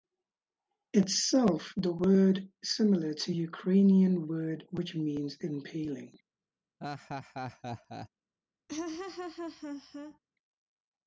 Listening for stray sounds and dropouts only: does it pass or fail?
fail